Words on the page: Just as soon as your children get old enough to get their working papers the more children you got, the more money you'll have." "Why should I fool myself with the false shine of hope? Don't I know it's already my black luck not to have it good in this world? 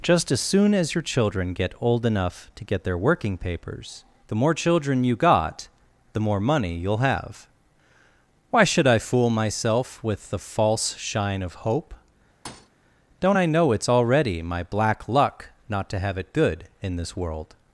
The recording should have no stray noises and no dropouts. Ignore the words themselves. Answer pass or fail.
fail